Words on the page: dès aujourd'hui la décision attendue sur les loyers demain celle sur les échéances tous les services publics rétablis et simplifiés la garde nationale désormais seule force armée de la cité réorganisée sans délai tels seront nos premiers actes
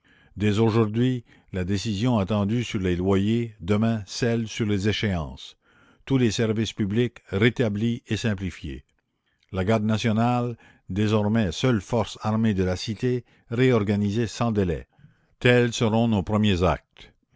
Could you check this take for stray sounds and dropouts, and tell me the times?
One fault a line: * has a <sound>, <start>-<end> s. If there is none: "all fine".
all fine